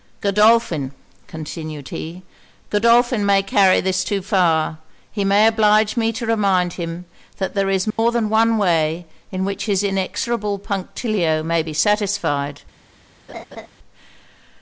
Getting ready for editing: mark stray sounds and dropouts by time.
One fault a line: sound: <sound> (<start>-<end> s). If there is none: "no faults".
sound: dropout (7.9-8.0 s)
sound: laugh (13.3-13.7 s)